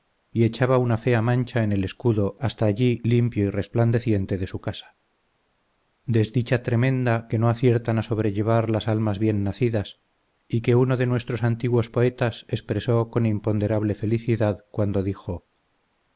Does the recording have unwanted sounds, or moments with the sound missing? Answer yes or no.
no